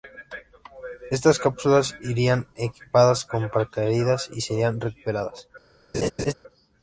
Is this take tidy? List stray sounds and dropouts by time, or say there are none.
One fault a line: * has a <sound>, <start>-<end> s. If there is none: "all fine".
* has a laugh, 5.9-6.3 s